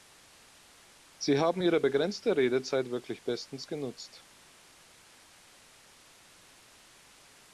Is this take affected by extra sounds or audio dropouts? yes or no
no